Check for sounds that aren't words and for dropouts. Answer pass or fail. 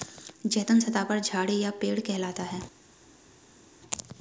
pass